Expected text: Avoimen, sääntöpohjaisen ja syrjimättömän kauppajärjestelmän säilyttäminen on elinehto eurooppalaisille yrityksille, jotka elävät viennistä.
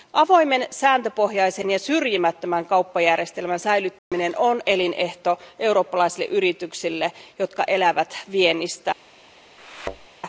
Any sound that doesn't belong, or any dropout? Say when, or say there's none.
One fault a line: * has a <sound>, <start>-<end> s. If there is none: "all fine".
* has a dropout, 4.0-4.1 s
* has a thud, 9.6-10.1 s